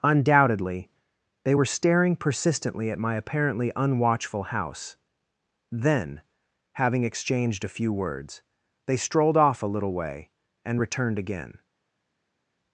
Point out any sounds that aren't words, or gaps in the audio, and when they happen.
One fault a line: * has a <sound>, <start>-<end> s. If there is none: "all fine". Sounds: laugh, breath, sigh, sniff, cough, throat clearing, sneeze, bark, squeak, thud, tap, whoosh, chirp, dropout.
all fine